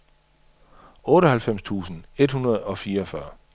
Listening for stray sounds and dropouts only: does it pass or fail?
pass